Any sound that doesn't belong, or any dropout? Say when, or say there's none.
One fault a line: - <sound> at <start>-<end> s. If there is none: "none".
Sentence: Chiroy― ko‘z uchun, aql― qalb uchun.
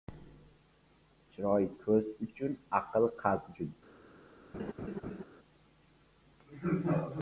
- laugh at 4.5-5.2 s